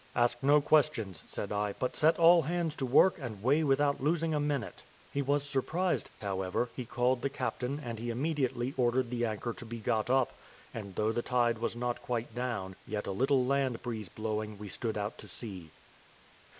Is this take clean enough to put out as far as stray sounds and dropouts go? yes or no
yes